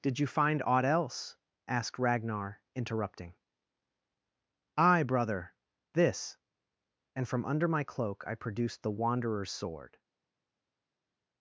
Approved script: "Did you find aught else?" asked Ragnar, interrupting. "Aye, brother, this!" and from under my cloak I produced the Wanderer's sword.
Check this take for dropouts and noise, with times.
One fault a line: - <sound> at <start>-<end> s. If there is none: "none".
none